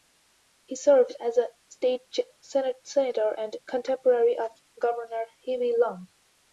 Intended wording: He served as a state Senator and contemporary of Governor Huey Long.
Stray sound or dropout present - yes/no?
no